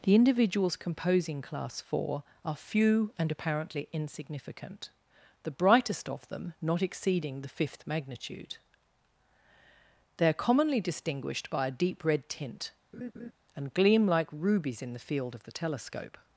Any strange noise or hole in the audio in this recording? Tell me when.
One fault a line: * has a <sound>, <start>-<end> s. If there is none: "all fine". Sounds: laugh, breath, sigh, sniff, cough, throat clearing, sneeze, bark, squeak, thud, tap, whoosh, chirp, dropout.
* has a laugh, 12.9-13.3 s